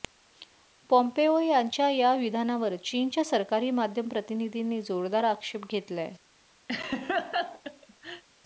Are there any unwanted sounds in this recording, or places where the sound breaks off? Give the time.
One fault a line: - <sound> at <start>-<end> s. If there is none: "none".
- laugh at 6.7-8.2 s